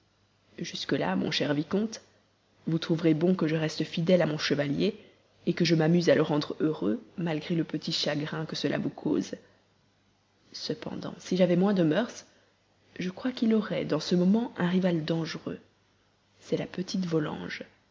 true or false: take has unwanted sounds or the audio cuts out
false